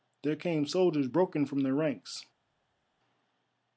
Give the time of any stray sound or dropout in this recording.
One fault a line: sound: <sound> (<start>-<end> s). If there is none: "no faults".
no faults